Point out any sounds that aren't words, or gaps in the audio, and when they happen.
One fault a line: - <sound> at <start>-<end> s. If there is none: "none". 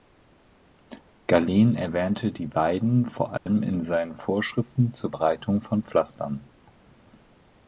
- dropout at 3.4-3.5 s